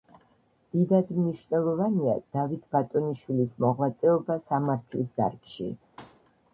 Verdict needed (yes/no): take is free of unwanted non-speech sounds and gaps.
no